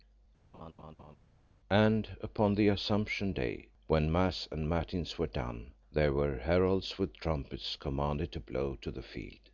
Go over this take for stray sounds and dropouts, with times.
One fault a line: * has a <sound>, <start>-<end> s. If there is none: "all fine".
* has a laugh, 0.5-1.2 s